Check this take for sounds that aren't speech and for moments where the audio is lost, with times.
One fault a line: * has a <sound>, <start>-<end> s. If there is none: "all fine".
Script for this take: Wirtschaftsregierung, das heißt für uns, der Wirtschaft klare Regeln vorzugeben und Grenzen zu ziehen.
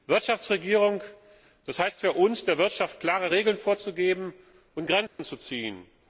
* has a dropout, 5.1-5.2 s